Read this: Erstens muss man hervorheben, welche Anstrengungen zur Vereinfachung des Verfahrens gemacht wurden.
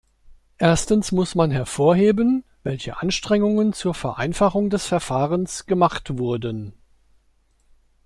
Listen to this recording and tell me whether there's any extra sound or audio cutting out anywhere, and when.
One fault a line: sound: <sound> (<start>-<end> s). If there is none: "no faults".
no faults